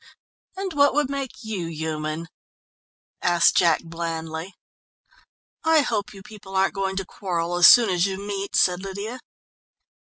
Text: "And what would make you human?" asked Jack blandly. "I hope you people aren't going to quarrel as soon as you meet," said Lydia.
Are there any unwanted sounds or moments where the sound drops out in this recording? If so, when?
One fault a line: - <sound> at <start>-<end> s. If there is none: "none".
none